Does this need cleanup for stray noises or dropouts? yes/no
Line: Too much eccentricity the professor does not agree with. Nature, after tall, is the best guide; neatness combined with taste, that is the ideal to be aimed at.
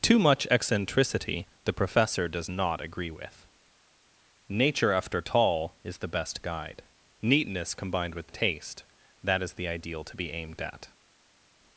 no